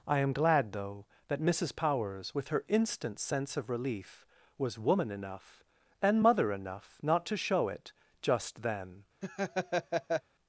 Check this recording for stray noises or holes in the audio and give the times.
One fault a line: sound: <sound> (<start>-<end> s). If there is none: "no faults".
sound: laugh (9.2-10.2 s)